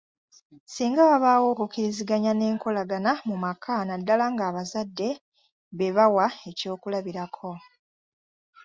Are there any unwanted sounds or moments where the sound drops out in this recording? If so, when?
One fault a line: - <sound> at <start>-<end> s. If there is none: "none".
none